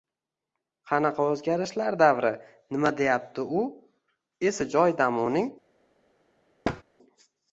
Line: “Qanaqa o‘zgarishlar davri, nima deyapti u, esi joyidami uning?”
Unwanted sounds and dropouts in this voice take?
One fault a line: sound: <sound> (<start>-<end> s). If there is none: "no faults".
sound: thud (6.6-6.8 s)